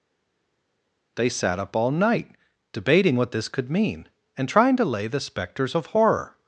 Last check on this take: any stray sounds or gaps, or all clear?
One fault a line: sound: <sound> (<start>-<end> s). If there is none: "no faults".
no faults